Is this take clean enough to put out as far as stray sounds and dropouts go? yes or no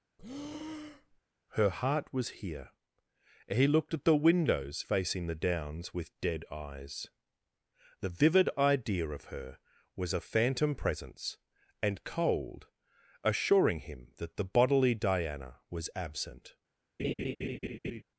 no